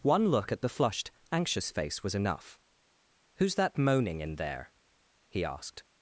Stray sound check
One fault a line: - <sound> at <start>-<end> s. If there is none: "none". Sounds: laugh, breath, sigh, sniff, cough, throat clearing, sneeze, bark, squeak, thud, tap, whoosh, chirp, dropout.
none